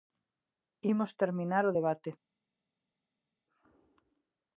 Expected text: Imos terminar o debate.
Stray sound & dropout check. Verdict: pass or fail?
pass